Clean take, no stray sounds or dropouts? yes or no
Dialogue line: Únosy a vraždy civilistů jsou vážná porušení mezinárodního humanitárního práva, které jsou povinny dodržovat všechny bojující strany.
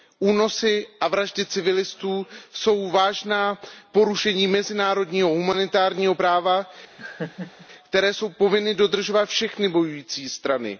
no